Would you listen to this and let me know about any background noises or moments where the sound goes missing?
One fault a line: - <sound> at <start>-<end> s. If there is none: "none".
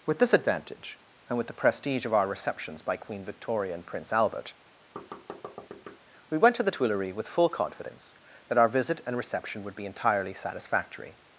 - thud at 5.0-6.0 s